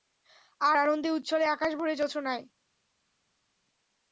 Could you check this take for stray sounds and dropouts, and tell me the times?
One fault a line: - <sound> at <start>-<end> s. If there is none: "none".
none